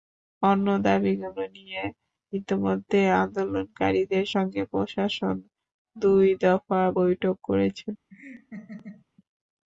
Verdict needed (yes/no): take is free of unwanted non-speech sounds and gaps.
no